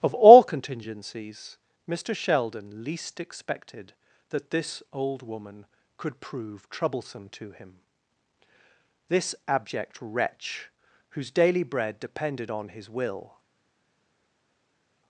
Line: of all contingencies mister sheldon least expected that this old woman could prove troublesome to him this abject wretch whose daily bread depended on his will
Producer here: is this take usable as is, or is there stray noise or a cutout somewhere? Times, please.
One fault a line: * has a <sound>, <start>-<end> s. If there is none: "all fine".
all fine